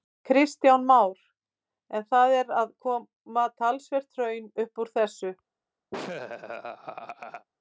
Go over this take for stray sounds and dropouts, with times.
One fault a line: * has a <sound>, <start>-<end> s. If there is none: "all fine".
* has a laugh, 5.9-7.5 s